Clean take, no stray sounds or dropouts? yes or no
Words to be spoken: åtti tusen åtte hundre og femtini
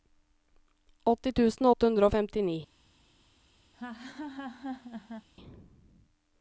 no